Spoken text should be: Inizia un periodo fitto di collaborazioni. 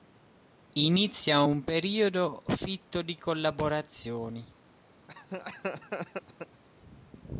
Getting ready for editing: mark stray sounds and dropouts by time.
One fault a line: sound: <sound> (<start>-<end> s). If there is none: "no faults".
sound: laugh (5.1-6.6 s)